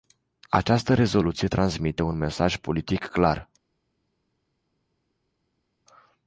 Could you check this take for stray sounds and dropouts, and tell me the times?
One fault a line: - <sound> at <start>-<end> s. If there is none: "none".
none